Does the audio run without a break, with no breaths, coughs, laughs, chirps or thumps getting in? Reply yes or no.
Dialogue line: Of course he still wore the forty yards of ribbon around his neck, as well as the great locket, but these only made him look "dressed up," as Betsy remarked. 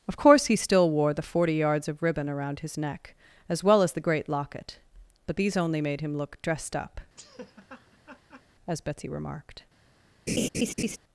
no